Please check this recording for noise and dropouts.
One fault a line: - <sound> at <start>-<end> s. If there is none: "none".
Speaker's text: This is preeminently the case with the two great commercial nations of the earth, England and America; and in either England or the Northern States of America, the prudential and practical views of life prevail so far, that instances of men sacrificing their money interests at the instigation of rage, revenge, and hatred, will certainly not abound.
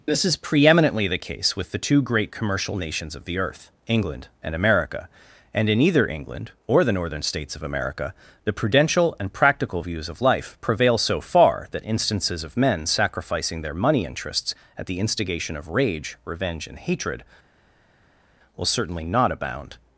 none